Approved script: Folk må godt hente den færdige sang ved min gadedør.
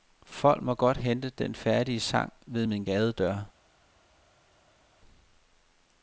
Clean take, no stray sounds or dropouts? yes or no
yes